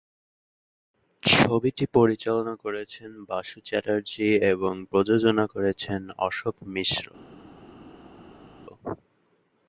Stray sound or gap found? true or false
false